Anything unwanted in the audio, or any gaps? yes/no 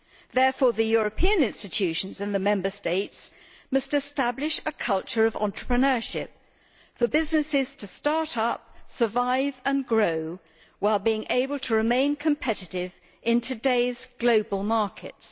no